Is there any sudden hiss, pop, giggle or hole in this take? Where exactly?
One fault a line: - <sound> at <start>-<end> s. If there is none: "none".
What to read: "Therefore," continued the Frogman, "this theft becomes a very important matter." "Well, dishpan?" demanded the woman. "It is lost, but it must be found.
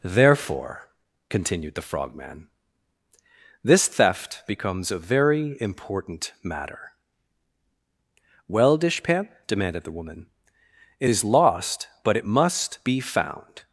none